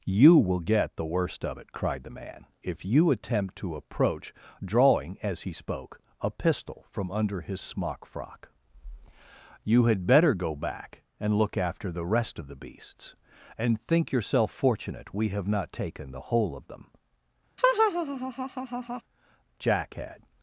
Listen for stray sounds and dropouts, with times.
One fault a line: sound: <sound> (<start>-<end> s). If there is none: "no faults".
sound: laugh (17.6-19.0 s)